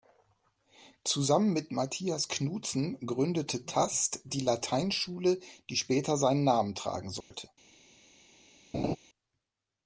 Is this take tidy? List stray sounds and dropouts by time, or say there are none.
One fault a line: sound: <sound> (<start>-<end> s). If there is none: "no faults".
sound: dropout (7.2-7.3 s)
sound: laugh (8.7-9.0 s)